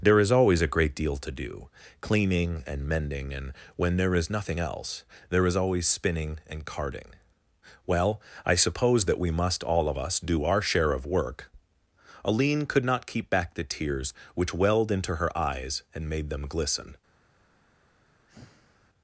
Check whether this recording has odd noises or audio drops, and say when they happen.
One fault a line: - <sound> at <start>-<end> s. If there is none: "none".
- sigh at 18.3-18.9 s